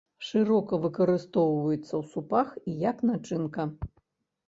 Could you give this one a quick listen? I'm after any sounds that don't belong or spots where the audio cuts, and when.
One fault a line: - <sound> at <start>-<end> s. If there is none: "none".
none